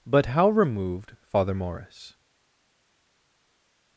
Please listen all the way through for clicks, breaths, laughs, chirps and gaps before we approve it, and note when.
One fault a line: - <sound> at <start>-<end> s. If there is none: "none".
none